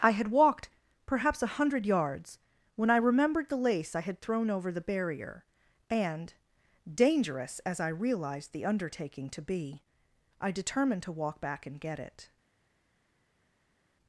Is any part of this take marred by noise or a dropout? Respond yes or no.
no